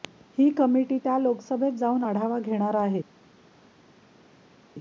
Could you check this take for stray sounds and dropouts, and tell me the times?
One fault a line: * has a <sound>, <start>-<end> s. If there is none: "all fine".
all fine